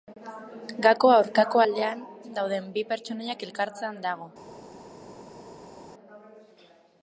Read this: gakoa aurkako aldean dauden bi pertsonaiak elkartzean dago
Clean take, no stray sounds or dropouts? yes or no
yes